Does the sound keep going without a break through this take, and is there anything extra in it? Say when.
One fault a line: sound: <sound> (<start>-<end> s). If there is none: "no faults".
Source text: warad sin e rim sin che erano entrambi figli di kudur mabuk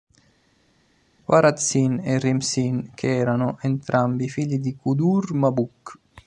no faults